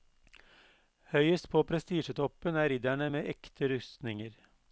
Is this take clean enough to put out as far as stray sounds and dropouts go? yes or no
yes